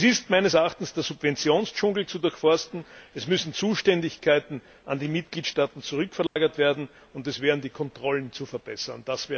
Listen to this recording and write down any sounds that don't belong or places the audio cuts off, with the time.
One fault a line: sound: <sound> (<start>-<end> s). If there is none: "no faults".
sound: dropout (6.3-6.4 s)